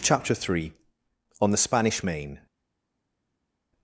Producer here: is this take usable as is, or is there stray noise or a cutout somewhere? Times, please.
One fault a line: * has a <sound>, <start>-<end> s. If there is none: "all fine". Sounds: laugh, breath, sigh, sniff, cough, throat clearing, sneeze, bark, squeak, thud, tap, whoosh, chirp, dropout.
all fine